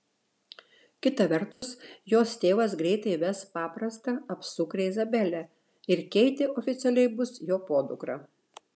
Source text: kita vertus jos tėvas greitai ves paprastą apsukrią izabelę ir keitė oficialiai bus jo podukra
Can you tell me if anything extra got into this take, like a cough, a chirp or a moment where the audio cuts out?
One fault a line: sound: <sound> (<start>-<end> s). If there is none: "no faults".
sound: dropout (1.5-1.6 s)